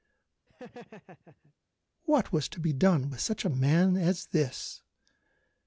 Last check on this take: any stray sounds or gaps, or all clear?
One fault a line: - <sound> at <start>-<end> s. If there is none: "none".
- laugh at 0.5-1.5 s